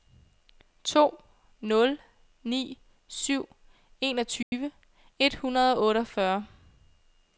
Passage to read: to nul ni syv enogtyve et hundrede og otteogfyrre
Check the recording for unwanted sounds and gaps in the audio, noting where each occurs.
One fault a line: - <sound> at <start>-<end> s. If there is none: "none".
- dropout at 4.4-4.5 s